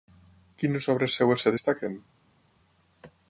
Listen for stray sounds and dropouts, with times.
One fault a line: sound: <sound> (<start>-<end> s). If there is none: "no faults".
no faults